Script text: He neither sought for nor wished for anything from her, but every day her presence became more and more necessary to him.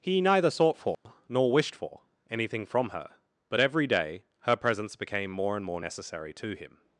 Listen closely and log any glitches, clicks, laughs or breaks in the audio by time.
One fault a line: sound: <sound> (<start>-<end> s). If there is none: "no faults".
sound: dropout (0.9-1.1 s)